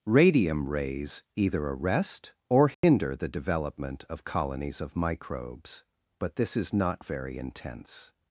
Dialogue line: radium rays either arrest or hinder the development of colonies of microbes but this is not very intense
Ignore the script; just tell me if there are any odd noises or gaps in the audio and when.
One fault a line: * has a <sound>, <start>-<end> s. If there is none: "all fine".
* has a dropout, 2.7-2.8 s